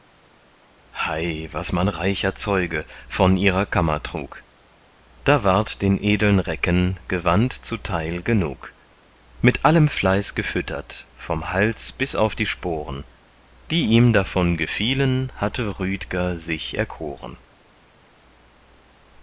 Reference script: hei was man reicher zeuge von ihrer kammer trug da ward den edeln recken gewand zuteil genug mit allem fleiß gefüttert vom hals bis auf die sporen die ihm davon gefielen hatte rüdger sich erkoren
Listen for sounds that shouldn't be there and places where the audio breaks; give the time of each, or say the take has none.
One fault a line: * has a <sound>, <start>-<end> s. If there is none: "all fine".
all fine